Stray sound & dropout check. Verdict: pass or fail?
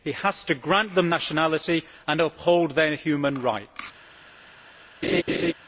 fail